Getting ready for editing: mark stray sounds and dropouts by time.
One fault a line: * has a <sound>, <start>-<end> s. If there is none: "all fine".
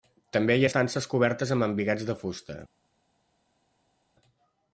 all fine